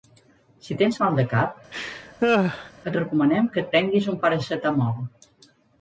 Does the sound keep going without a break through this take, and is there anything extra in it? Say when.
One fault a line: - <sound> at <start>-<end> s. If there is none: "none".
- laugh at 1.7-2.7 s